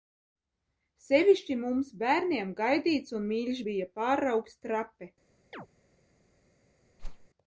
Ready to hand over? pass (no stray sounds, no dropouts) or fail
fail